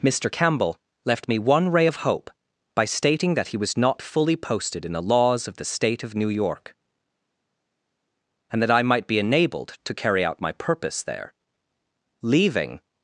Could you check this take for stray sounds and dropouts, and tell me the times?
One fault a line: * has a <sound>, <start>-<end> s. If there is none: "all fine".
all fine